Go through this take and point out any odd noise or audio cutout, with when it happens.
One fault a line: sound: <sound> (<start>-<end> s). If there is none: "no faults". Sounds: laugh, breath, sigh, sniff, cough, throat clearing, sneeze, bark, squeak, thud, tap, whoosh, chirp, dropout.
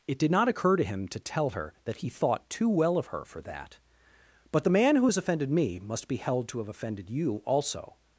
no faults